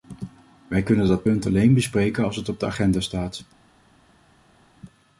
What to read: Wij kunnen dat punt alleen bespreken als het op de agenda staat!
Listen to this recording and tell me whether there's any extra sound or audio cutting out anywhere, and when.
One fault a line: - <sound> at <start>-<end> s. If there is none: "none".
none